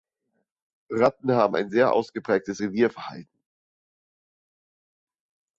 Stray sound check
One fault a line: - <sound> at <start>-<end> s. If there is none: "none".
none